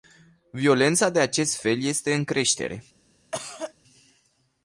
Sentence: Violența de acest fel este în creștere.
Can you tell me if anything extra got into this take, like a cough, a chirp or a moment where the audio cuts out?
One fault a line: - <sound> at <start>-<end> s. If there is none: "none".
- cough at 3.3-3.7 s